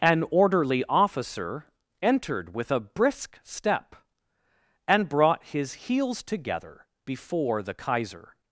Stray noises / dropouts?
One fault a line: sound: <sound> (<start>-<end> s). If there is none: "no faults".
no faults